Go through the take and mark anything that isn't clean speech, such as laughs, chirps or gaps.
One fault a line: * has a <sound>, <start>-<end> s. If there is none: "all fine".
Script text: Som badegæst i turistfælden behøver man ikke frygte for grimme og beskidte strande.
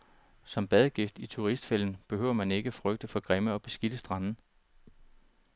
all fine